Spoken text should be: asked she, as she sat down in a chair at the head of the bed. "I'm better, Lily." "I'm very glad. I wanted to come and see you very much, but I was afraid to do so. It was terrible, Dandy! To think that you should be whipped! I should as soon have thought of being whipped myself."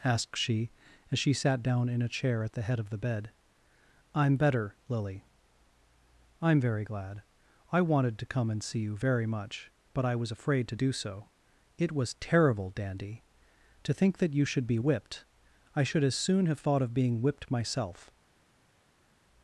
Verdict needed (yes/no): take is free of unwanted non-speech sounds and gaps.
yes